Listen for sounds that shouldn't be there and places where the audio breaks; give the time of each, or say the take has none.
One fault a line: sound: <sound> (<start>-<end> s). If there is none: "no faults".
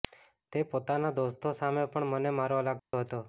sound: dropout (2.8-2.9 s)